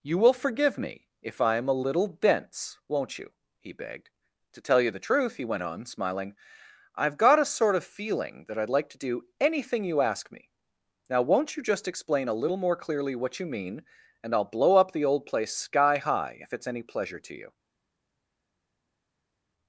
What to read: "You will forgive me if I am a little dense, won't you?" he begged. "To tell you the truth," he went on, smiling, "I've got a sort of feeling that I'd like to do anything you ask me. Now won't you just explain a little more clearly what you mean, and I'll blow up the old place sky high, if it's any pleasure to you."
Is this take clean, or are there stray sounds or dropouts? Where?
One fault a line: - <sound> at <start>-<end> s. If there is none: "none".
none